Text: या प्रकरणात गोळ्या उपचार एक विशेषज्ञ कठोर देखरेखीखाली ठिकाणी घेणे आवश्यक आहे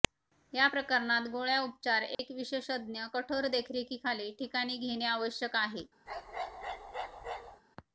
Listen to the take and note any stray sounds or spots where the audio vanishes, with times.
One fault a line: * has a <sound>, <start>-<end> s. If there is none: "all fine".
* has a dropout, 2.1-2.2 s
* has a bark, 6.1-7.6 s